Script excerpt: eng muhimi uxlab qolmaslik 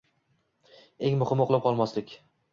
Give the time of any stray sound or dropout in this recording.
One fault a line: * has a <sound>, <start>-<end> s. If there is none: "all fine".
all fine